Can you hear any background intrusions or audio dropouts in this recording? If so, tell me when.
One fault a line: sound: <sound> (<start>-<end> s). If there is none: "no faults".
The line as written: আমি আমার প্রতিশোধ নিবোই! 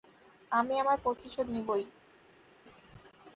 no faults